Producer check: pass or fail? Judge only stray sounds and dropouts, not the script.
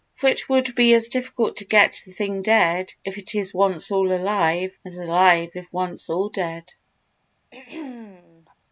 fail